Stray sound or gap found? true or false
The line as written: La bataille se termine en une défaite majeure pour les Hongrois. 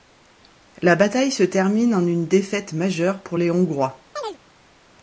true